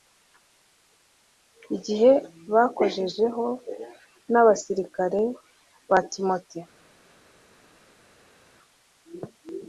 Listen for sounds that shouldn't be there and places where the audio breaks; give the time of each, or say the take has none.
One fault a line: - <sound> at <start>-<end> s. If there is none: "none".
none